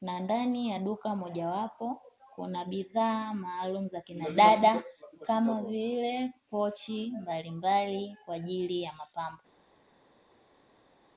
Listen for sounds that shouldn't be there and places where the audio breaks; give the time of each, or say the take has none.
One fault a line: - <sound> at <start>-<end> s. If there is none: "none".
none